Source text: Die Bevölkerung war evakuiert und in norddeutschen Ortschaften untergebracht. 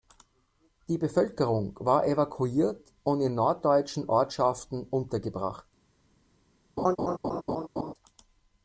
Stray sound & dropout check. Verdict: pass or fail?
fail